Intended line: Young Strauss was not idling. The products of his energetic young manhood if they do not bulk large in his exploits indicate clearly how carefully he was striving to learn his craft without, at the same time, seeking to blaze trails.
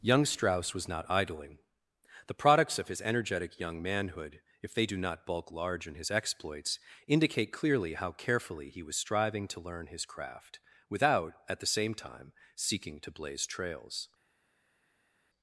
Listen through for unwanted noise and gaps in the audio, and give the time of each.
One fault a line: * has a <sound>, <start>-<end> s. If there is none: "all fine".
all fine